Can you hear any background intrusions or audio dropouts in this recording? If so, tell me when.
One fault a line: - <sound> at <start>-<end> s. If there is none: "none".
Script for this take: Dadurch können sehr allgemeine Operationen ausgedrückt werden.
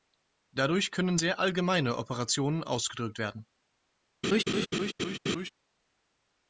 - laugh at 4.2-5.5 s